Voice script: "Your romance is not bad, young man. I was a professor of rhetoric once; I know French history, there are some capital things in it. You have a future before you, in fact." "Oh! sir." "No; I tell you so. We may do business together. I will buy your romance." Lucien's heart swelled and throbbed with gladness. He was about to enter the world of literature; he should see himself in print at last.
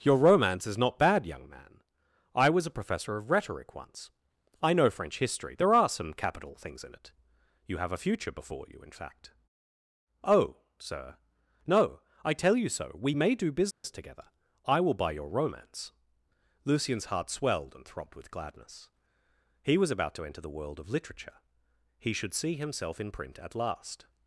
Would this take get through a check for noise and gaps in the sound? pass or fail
fail